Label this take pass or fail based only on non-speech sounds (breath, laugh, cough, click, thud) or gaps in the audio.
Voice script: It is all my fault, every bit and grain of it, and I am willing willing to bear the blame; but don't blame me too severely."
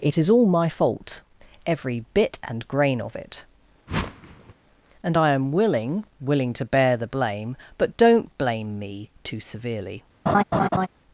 fail